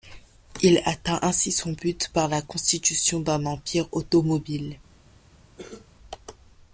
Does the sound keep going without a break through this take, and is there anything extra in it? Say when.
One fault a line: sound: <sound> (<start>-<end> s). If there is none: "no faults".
sound: cough (5.6-5.9 s)